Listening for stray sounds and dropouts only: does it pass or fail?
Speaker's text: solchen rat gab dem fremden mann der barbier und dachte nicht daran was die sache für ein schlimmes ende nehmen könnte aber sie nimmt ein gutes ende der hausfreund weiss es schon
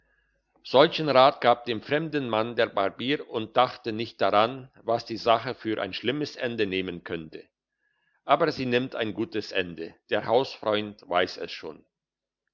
pass